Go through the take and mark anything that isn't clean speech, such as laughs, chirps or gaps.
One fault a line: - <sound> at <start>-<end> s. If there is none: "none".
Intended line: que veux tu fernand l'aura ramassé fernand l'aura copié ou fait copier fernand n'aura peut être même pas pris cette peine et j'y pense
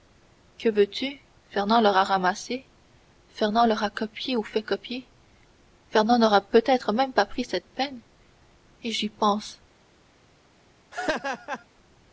- laugh at 10.9-11.6 s